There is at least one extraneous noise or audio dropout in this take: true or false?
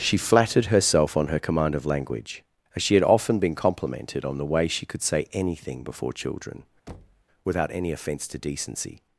true